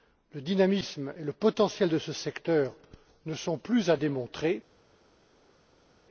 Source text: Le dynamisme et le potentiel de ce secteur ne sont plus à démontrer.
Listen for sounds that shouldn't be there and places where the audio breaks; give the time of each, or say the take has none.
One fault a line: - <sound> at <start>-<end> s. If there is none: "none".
none